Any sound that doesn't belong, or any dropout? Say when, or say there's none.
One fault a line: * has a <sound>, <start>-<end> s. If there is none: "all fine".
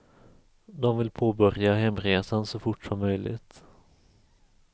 all fine